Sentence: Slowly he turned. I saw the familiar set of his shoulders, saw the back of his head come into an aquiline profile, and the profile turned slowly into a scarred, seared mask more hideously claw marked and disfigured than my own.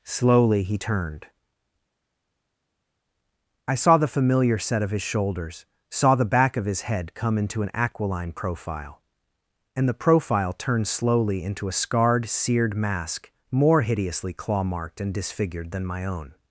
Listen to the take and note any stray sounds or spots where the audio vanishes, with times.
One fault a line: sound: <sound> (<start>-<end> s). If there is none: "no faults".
no faults